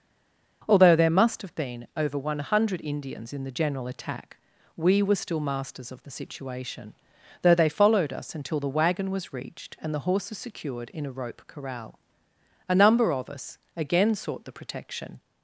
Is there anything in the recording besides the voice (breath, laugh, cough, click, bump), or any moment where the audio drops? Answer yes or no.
no